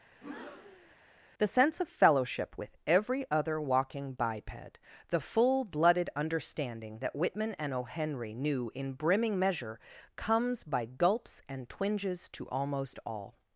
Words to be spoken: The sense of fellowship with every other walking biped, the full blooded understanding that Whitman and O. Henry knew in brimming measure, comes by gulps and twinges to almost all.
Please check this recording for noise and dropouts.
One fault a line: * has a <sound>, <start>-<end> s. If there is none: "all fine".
* has a breath, 0.1-0.9 s